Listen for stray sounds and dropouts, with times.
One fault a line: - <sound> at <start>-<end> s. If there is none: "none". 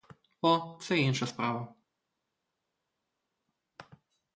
none